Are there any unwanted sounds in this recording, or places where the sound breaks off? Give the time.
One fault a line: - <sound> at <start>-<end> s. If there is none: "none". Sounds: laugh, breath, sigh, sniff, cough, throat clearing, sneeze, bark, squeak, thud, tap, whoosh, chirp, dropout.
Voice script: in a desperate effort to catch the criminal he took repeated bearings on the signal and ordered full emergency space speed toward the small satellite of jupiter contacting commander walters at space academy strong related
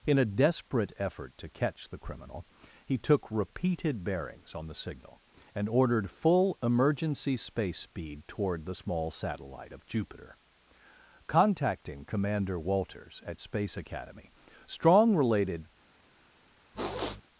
- sniff at 16.7-17.2 s